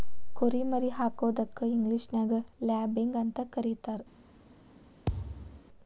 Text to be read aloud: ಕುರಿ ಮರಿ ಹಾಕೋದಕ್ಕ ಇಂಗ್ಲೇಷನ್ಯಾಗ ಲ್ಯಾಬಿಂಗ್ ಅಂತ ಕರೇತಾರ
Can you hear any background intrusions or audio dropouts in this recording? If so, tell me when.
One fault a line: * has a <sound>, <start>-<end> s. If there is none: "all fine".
* has a thud, 5.1-5.6 s